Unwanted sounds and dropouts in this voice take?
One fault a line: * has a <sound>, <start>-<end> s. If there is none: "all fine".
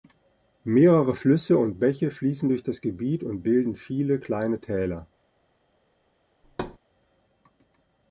* has a thud, 6.4-6.8 s